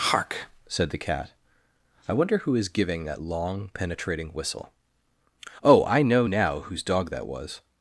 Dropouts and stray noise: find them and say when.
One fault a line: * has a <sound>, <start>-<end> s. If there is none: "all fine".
all fine